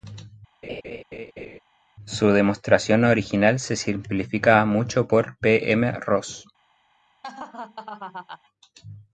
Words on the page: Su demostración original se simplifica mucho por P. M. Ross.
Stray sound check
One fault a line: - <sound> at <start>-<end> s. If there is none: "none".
- laugh at 0.6-1.6 s
- laugh at 7.2-8.4 s